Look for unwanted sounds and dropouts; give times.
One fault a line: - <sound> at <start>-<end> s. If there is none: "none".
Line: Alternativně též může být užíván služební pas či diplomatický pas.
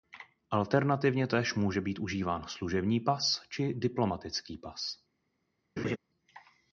- laugh at 5.8-6.0 s